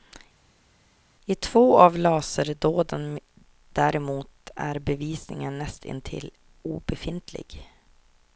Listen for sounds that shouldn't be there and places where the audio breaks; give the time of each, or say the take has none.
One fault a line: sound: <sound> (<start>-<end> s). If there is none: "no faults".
no faults